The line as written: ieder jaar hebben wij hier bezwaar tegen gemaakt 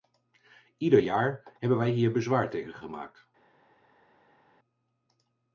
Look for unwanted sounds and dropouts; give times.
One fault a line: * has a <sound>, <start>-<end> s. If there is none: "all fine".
all fine